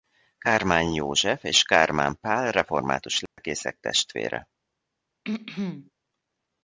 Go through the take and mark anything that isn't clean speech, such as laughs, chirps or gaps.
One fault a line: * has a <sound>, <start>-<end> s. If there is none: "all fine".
* has a dropout, 3.3-3.4 s
* has a throat clearing, 5.2-5.9 s